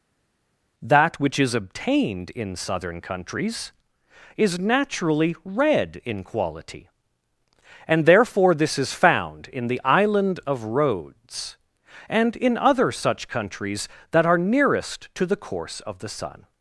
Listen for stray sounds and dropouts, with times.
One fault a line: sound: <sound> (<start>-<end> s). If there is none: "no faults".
no faults